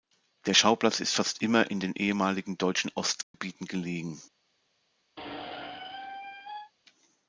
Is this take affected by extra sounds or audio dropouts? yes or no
yes